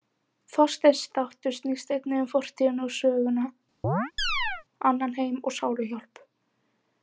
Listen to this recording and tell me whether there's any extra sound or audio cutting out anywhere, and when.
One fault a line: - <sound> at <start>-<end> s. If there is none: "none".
- chirp at 3.8-4.6 s